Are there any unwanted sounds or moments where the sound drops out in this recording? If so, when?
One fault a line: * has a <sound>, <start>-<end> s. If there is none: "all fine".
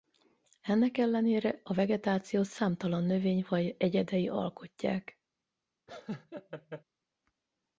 * has a laugh, 5.9-6.8 s